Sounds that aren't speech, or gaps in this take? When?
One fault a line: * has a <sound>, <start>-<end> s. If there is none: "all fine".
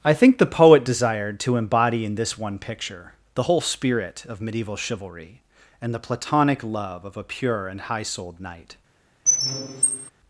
* has a squeak, 9.3-10.1 s